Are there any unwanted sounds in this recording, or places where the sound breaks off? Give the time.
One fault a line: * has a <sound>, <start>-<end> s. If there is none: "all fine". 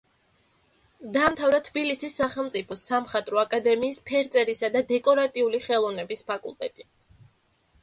all fine